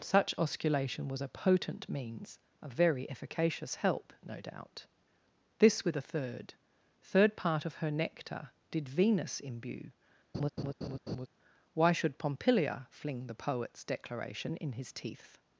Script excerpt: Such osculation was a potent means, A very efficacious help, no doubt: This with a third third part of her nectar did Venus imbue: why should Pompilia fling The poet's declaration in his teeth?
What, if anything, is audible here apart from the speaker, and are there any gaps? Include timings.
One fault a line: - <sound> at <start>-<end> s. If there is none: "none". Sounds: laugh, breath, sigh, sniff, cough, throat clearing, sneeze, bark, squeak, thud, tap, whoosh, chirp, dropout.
- laugh at 10.3-11.3 s